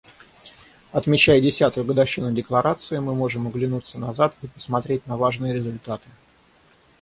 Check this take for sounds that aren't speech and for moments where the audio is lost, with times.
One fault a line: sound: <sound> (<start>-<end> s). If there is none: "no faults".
no faults